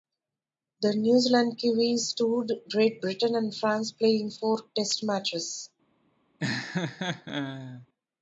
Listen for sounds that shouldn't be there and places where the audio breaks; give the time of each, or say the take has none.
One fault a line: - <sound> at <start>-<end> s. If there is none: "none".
- laugh at 6.4-7.9 s